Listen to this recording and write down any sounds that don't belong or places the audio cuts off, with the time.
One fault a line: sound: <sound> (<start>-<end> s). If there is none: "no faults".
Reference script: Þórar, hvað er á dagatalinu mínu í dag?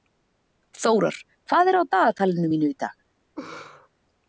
sound: laugh (3.4-3.9 s)